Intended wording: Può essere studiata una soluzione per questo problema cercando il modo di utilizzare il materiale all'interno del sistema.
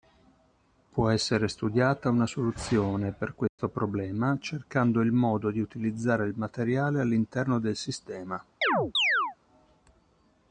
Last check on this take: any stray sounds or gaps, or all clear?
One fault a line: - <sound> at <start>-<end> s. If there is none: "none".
- dropout at 3.5-3.6 s
- chirp at 8.6-9.4 s